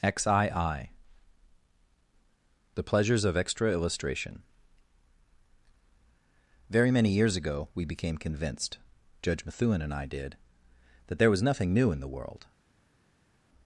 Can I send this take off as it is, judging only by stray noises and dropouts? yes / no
yes